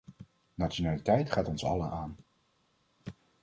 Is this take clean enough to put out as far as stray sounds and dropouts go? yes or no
yes